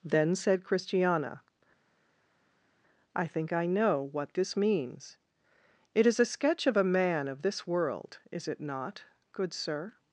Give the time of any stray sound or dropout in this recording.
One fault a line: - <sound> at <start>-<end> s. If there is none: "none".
none